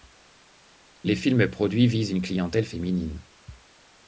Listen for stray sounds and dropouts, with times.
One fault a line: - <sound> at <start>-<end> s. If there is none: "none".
none